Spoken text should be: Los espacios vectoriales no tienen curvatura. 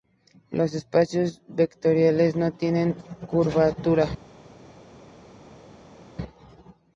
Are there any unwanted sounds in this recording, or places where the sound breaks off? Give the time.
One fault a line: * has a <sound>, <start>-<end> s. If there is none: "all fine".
all fine